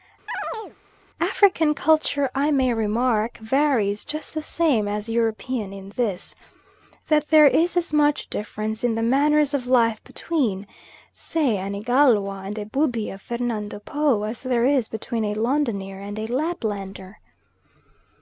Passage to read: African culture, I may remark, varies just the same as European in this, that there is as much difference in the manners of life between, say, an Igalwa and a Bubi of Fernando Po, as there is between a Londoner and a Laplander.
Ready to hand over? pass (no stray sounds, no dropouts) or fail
fail